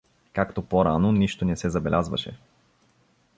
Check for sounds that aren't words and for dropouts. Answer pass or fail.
pass